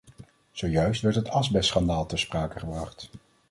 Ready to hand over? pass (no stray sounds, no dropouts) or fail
pass